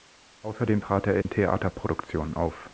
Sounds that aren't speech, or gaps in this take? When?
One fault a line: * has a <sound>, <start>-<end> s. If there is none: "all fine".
* has a dropout, 1.2-1.3 s